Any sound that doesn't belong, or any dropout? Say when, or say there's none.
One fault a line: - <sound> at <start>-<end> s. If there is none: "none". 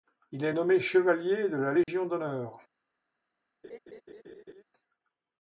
- dropout at 1.8-1.9 s
- laugh at 3.6-4.6 s